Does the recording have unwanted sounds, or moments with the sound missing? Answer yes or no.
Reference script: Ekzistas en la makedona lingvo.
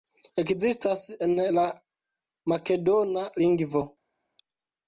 no